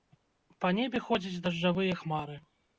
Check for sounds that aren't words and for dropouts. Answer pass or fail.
pass